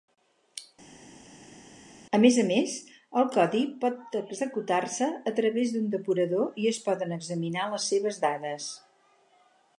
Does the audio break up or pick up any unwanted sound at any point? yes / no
no